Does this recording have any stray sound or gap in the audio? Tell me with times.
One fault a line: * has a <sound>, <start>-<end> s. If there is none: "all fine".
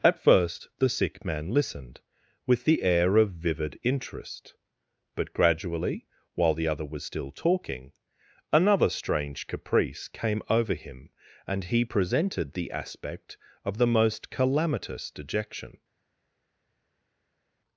all fine